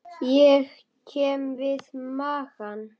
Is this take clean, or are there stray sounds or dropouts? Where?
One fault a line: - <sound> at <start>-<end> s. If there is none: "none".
none